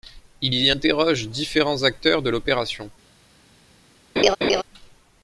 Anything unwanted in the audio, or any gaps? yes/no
yes